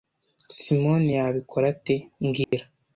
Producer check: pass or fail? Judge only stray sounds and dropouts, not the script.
fail